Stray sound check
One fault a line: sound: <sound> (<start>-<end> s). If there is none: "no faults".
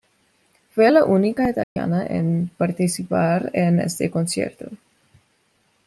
sound: dropout (1.6-1.8 s)